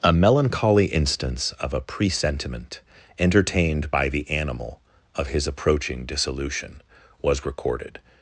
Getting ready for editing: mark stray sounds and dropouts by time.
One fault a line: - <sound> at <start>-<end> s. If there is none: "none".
none